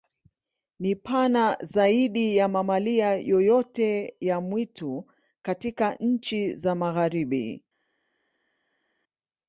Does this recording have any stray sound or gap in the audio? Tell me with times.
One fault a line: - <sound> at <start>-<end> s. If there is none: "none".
none